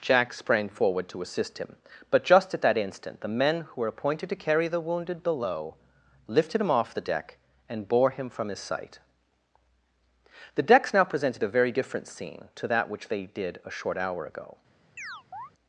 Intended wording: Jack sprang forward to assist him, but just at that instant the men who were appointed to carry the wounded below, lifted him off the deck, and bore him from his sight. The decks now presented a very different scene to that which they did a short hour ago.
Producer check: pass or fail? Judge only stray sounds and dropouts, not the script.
fail